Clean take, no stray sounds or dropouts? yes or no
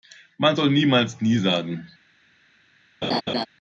no